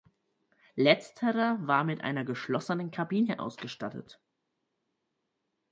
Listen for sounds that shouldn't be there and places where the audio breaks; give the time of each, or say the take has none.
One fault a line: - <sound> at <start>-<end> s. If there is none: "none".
none